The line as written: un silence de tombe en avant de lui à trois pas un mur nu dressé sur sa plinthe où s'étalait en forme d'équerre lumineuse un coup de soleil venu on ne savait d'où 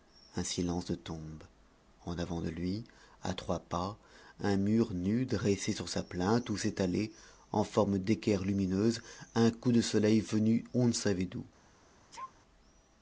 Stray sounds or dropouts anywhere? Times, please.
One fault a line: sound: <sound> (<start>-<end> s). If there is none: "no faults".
sound: sneeze (12.1-12.3 s)